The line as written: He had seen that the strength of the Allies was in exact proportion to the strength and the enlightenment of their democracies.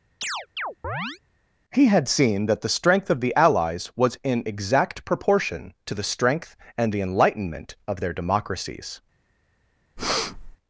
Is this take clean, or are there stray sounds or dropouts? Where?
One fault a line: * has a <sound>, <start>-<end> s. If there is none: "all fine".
* has a chirp, 0.2-1.2 s
* has a breath, 10.0-10.6 s